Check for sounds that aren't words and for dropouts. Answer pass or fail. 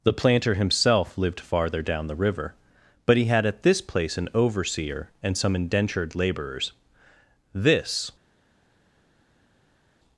pass